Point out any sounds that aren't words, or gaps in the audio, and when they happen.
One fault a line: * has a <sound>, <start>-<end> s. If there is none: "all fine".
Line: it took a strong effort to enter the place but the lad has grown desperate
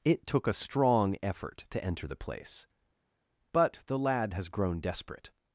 all fine